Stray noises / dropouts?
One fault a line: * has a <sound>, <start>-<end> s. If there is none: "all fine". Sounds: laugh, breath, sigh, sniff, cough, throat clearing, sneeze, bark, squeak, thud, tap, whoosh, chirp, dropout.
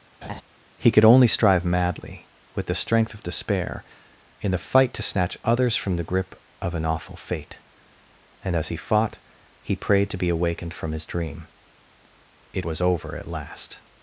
* has a laugh, 0.2-0.4 s